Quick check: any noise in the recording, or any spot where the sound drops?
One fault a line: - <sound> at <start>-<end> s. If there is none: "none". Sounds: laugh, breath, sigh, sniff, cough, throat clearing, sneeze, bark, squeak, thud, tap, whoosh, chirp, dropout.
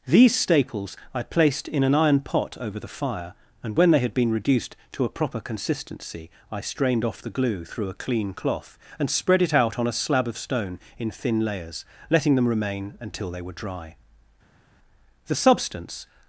none